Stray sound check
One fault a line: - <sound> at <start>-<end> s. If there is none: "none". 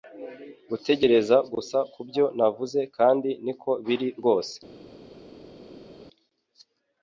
none